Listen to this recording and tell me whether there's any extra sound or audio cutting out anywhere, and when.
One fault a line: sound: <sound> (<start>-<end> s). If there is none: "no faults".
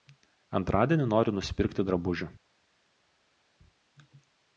no faults